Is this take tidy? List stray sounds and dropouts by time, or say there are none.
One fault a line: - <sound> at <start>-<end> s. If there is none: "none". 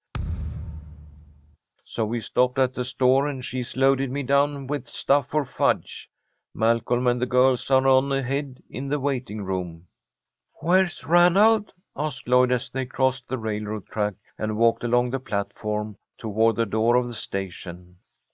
- thud at 0.1-1.6 s